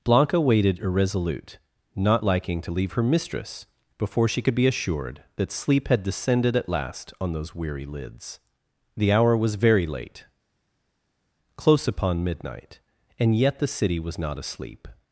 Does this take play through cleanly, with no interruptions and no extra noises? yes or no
yes